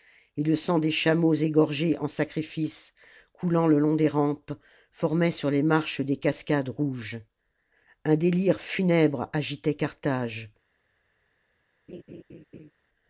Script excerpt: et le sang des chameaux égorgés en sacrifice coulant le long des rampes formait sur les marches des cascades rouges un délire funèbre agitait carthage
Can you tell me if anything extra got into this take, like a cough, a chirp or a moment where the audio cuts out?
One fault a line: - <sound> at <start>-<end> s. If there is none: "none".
- laugh at 11.9-12.7 s